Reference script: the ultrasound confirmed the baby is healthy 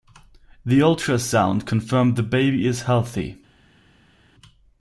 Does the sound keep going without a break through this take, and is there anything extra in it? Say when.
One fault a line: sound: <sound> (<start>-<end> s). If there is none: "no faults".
no faults